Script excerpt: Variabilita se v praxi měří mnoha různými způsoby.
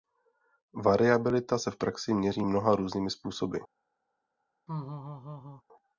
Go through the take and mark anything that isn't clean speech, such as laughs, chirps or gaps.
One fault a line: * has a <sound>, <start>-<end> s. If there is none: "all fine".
* has a laugh, 4.7-5.6 s